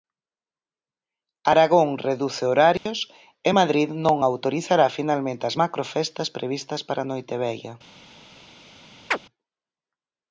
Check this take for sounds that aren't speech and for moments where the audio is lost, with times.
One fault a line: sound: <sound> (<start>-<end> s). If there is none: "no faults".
sound: dropout (2.8-2.9 s)
sound: chirp (9.1-9.2 s)